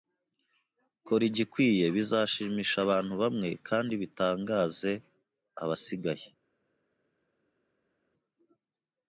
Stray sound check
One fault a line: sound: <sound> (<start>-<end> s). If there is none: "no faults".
no faults